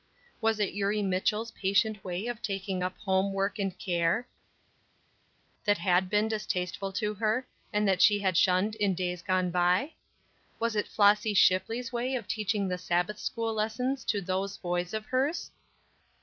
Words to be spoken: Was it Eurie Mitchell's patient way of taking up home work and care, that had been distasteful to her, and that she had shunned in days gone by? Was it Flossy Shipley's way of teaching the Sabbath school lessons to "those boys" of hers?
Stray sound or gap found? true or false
false